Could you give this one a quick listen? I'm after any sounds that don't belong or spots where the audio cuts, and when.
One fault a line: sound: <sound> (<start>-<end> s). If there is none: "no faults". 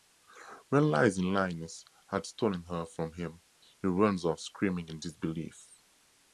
no faults